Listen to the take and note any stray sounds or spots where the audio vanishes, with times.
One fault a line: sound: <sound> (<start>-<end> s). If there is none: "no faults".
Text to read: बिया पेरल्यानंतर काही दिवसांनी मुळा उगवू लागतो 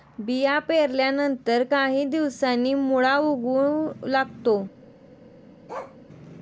sound: bark (5.7-6.0 s)